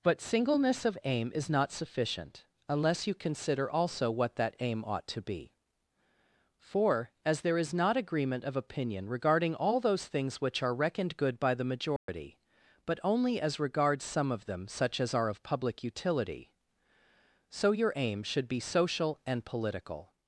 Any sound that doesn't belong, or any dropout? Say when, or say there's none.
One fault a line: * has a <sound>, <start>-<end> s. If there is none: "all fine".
* has a dropout, 12.0-12.1 s